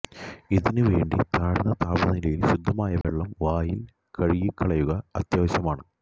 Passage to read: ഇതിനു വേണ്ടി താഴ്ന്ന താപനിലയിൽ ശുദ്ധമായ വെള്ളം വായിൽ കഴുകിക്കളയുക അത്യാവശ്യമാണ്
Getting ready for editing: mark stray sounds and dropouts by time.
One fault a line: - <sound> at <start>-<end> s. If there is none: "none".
- dropout at 3.0-3.0 s